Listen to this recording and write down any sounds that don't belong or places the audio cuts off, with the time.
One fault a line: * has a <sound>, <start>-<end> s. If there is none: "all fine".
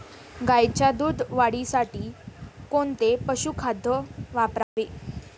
* has a dropout, 4.6-4.8 s